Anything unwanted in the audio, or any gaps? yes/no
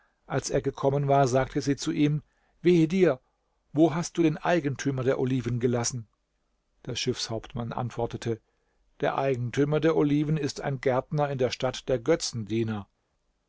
no